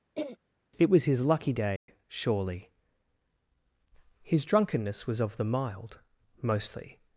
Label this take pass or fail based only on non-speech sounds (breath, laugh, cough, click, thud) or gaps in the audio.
fail